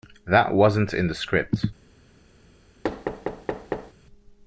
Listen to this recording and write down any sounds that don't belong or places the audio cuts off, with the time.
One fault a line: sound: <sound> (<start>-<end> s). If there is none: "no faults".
sound: thud (2.8-3.9 s)